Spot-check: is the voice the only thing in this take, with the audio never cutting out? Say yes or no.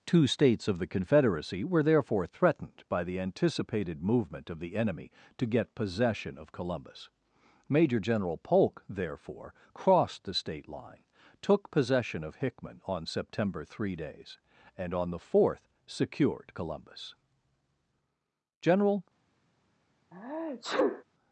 no